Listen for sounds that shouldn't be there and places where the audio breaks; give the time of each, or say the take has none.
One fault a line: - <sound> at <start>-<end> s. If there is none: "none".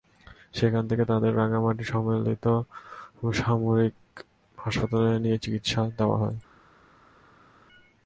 none